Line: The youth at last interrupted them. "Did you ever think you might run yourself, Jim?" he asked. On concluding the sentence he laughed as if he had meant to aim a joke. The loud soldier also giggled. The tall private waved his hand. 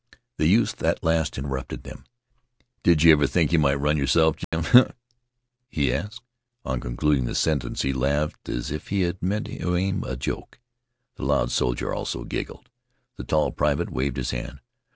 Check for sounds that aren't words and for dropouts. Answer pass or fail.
fail